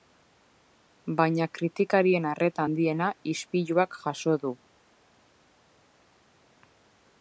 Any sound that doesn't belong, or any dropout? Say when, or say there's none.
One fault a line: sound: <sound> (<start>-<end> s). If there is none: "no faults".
no faults